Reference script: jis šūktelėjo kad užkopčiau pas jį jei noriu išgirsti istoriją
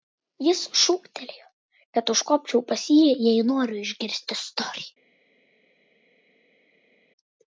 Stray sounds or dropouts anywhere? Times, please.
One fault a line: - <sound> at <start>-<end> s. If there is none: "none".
none